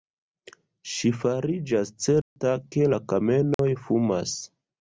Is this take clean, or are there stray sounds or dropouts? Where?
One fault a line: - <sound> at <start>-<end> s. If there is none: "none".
- dropout at 2.2-2.4 s
- dropout at 3.5-3.6 s